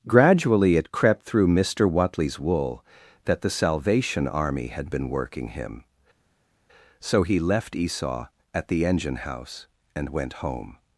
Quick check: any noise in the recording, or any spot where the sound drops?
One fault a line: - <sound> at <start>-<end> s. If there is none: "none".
none